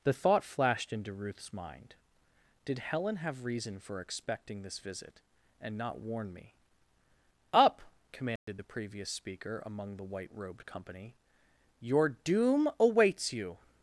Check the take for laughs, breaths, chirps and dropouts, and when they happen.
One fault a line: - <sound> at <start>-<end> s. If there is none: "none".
- dropout at 8.4-8.5 s